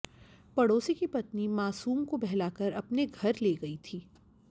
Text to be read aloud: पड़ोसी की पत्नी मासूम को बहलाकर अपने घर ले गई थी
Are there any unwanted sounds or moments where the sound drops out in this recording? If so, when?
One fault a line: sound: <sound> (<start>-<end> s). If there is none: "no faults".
no faults